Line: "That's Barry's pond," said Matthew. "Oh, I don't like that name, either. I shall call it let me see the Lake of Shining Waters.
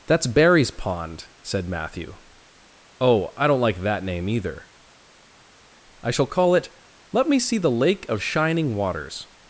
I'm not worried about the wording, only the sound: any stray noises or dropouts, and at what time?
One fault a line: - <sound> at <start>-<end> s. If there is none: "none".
none